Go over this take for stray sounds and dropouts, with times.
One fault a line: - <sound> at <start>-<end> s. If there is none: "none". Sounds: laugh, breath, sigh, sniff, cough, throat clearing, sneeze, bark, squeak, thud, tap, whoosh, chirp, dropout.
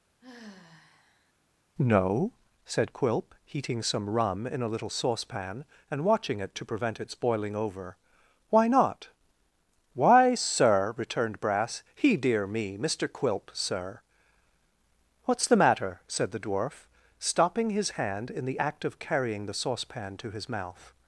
- sigh at 0.2-1.3 s